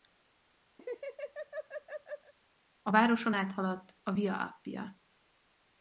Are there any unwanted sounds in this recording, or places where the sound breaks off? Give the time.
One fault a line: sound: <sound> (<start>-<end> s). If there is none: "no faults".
sound: laugh (0.8-2.3 s)